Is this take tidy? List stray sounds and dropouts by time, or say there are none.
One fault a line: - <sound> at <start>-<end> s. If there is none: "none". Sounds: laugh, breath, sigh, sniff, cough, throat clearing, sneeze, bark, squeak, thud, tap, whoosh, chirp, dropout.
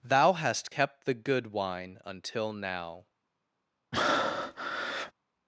- breath at 3.9-5.1 s